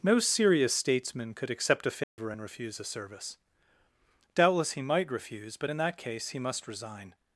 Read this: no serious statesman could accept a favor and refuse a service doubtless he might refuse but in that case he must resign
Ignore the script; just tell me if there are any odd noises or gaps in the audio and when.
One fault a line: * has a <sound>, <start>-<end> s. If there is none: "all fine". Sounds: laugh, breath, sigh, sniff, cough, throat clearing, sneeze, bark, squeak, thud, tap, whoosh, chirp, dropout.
* has a dropout, 2.0-2.2 s